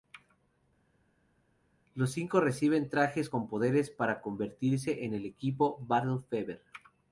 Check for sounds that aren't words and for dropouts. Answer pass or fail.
pass